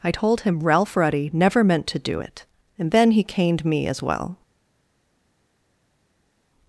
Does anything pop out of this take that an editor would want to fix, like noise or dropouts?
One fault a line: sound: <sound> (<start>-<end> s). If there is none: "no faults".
no faults